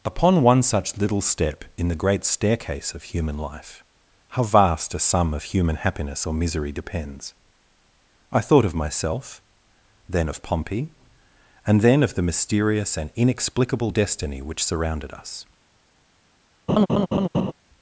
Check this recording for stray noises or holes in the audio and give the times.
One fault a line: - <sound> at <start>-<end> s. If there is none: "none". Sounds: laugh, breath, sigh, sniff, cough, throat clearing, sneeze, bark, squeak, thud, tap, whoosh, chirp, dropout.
- laugh at 16.7-17.5 s